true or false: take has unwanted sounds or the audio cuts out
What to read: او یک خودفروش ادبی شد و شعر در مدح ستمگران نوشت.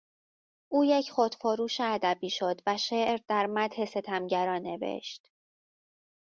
false